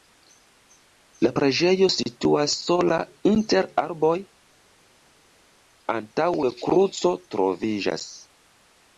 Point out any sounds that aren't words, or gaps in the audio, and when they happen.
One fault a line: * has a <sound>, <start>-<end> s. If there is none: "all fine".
all fine